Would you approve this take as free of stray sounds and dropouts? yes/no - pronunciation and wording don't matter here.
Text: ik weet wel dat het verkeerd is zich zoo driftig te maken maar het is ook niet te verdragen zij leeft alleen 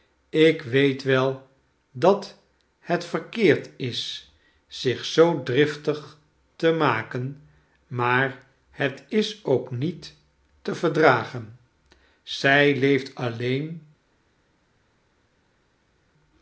yes